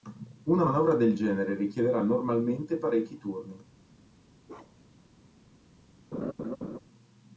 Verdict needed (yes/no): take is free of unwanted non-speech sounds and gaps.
no